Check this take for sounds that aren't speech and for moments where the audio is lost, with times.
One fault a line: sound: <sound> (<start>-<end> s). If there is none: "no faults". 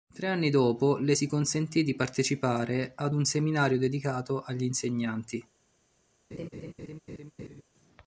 sound: laugh (6.3-7.6 s)